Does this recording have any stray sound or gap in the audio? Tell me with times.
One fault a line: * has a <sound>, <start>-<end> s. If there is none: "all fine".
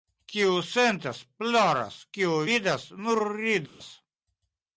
* has a dropout, 3.7-3.8 s